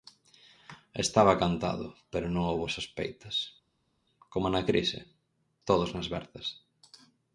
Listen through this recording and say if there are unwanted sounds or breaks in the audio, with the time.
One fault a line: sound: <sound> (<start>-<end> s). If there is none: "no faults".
no faults